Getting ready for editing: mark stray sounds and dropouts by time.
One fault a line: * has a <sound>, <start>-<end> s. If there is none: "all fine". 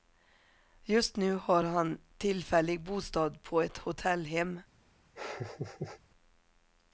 * has a laugh, 5.2-6.0 s